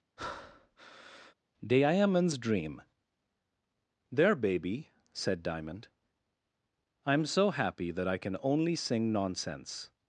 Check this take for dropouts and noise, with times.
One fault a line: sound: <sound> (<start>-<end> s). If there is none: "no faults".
sound: breath (0.2-1.3 s)